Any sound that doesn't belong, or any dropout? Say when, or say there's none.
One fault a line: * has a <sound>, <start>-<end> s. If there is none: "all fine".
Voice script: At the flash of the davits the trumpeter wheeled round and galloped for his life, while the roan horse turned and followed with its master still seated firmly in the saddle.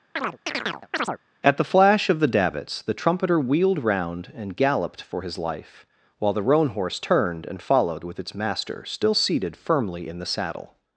* has a chirp, 0.2-1.2 s